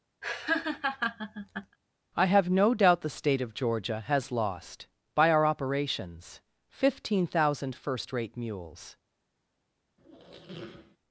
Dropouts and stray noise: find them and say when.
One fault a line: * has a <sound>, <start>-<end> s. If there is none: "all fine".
* has a laugh, 0.2-1.8 s
* has a squeak, 10.0-11.0 s